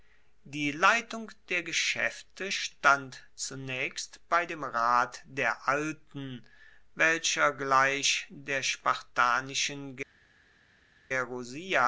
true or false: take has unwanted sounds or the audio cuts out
false